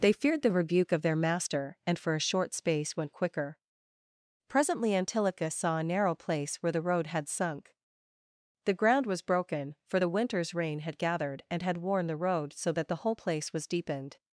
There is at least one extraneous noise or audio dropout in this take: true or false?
false